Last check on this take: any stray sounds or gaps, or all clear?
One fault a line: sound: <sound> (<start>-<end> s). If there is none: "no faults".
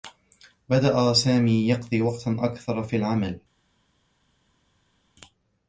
no faults